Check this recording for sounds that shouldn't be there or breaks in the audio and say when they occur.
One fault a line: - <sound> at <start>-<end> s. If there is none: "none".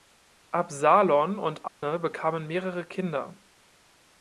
- dropout at 1.7-1.8 s